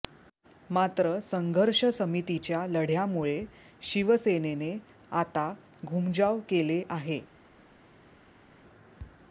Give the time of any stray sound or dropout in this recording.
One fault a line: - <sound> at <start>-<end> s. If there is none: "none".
none